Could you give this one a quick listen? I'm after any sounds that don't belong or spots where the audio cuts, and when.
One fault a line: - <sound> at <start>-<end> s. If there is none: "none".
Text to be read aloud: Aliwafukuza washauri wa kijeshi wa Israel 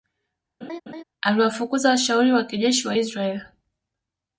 - laugh at 0.6-1.0 s